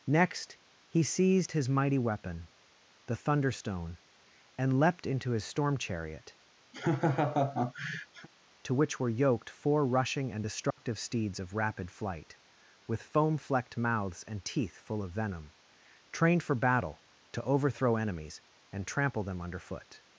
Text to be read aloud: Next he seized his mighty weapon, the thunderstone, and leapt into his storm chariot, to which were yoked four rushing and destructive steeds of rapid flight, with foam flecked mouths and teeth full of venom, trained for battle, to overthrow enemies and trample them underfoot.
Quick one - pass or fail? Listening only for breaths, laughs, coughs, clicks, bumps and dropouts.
fail